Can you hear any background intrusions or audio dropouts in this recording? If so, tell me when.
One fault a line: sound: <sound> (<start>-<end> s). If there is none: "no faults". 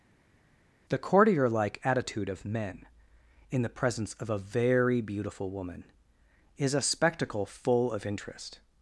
no faults